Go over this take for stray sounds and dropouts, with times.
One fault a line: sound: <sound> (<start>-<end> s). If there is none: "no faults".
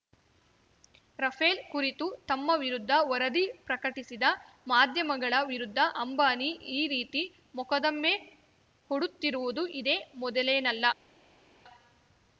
no faults